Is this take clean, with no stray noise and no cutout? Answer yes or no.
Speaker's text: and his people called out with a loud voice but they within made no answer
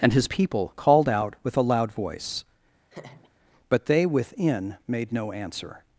no